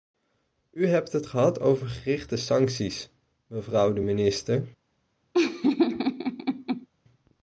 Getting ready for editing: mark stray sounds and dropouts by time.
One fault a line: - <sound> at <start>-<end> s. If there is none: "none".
- laugh at 5.3-6.9 s